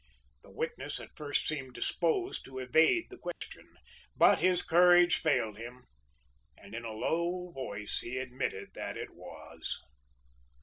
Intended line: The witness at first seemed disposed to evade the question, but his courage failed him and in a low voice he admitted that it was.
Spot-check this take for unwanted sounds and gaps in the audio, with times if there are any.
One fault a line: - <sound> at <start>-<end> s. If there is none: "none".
- dropout at 3.3-3.4 s